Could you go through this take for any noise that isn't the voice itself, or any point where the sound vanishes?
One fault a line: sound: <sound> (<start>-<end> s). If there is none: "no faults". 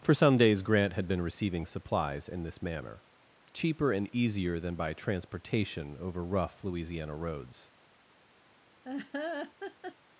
sound: laugh (8.8-10.0 s)